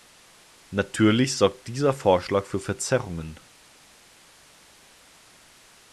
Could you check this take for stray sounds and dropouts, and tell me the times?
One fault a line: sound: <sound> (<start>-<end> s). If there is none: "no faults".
no faults